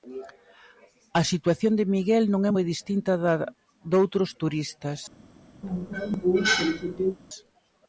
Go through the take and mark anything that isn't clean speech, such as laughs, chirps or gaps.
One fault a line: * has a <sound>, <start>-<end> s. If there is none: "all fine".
* has a cough, 5.6-7.2 s